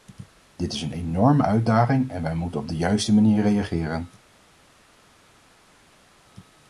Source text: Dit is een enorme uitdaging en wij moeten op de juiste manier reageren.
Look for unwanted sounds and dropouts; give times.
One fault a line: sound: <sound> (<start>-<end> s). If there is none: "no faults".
no faults